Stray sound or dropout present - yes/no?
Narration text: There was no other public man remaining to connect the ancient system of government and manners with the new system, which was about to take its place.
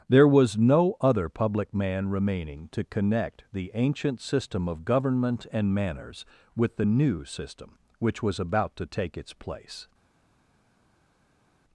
no